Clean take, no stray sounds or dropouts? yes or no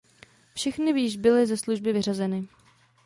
yes